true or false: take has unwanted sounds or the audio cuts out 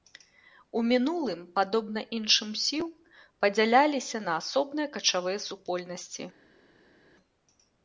false